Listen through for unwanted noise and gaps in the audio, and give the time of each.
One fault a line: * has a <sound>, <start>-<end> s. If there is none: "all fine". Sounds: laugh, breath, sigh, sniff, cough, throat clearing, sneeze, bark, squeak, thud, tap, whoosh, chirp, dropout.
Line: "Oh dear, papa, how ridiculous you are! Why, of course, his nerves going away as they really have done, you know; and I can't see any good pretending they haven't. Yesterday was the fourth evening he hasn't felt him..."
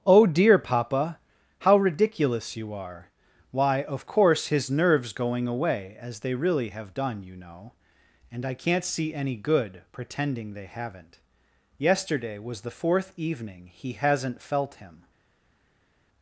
all fine